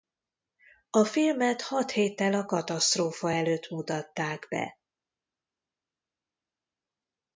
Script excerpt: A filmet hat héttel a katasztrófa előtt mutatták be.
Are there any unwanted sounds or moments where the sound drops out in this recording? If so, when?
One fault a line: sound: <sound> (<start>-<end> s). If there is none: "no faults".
no faults